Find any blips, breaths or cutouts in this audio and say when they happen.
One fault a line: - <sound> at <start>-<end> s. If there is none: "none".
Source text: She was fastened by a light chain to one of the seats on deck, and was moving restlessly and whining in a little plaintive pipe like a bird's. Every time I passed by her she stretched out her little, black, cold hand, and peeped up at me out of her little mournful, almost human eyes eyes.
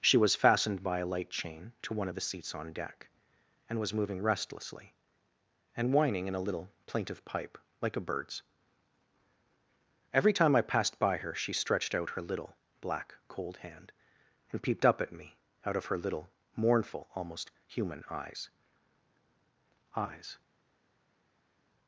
none